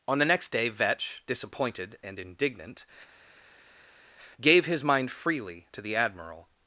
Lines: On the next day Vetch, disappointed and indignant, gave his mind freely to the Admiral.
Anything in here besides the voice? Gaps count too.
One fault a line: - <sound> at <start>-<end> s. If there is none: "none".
none